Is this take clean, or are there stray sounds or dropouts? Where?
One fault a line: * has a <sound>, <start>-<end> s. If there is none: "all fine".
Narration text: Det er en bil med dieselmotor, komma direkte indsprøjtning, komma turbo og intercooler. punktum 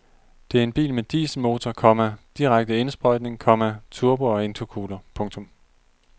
all fine